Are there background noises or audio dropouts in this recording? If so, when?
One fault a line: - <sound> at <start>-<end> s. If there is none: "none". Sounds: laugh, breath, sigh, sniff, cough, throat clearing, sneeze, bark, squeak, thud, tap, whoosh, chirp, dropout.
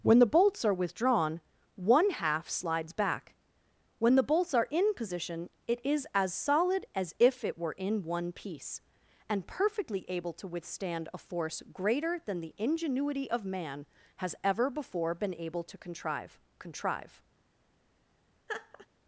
- laugh at 18.5-18.9 s